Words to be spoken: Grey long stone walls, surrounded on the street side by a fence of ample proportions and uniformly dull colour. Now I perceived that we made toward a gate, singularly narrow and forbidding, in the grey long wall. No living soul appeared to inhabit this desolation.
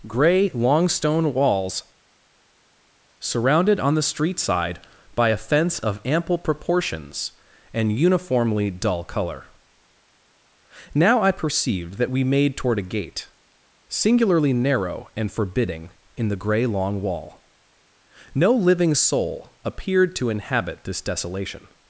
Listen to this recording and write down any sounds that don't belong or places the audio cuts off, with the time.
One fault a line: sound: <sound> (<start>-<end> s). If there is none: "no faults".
no faults